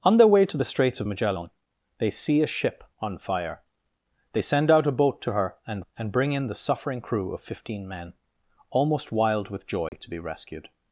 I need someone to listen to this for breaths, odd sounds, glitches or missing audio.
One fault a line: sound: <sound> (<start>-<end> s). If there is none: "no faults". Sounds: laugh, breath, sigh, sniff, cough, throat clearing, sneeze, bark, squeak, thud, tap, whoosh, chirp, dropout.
sound: dropout (9.9-9.9 s)